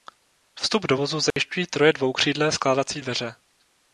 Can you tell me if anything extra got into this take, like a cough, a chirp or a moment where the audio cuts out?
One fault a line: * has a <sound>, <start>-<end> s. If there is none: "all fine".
* has a dropout, 1.3-1.4 s